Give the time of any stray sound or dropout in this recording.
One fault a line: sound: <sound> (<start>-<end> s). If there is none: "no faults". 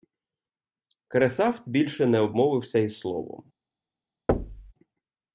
sound: thud (4.3-4.7 s)